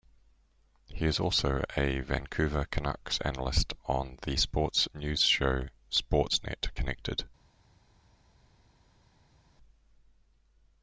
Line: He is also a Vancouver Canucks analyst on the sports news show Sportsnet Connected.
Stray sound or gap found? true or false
false